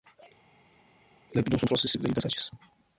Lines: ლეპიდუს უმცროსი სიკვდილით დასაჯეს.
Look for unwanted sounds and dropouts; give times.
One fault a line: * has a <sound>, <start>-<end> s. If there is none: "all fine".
all fine